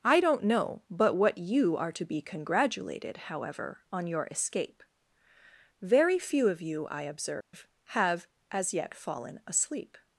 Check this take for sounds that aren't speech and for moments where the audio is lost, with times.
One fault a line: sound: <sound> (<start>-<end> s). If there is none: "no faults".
sound: dropout (7.4-7.5 s)